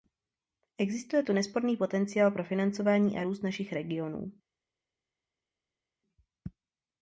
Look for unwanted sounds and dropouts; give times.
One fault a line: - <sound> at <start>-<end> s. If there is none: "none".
none